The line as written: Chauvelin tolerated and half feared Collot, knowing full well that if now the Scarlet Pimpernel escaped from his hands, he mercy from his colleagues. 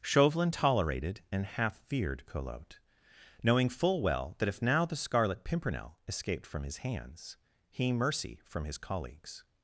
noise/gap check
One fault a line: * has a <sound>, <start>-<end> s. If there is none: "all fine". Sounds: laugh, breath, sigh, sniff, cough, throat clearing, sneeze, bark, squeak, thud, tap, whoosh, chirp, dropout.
all fine